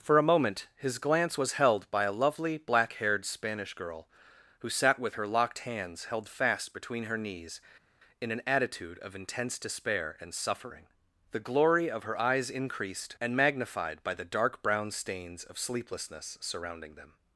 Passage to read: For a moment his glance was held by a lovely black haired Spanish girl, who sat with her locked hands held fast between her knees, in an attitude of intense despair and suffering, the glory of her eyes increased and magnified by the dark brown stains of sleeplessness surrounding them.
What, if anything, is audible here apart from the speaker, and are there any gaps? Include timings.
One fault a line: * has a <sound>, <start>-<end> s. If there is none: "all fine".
all fine